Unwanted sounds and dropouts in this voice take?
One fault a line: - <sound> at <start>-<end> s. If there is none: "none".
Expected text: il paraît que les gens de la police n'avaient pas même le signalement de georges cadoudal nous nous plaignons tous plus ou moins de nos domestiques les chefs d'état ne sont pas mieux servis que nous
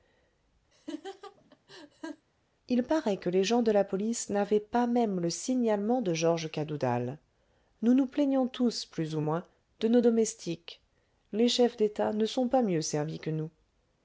- laugh at 0.7-2.3 s